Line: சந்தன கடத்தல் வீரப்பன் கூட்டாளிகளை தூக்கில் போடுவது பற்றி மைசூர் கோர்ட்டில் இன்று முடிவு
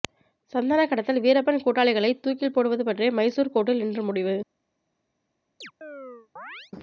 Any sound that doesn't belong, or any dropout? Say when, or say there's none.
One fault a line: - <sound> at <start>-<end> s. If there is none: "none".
- chirp at 5.6-6.7 s